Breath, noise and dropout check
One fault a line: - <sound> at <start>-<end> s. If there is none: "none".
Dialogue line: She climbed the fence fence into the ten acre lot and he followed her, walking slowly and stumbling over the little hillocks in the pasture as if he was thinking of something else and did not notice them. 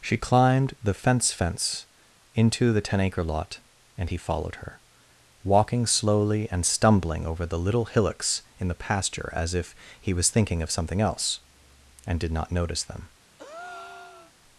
- breath at 13.4-14.3 s